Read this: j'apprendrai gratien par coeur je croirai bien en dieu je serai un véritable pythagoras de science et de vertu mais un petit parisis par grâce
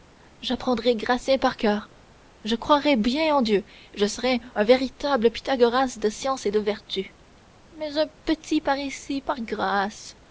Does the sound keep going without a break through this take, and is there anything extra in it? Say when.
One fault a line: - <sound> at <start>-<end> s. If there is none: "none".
none